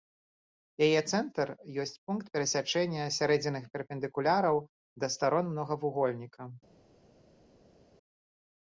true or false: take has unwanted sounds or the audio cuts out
false